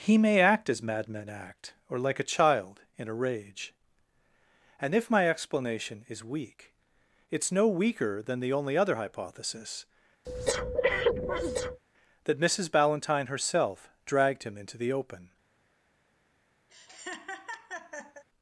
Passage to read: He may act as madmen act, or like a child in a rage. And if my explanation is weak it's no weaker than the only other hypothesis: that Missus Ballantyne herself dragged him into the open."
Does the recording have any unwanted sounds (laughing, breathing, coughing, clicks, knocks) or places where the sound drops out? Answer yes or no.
yes